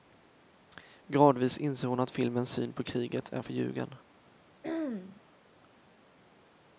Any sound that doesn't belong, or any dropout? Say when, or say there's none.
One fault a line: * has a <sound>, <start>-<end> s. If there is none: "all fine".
* has a throat clearing, 4.6-5.2 s